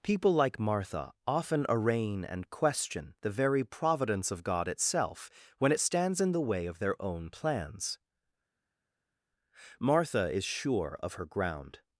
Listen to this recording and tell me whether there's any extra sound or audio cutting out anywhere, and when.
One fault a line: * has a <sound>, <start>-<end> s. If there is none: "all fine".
all fine